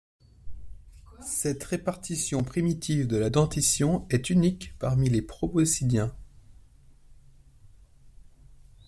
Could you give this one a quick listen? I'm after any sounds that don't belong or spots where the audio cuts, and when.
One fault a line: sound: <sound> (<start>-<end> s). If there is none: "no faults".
no faults